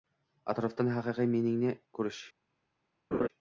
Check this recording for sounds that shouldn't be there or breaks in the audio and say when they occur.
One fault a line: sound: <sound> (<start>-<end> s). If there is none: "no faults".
sound: laugh (3.1-3.3 s)